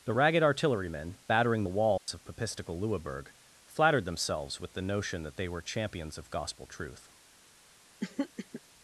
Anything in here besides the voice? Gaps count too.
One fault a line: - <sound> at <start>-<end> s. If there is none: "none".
- dropout at 2.0-2.1 s
- throat clearing at 8.0-8.6 s